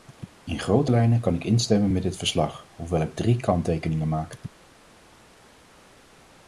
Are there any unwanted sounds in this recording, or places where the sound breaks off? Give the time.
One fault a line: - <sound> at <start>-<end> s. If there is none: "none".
none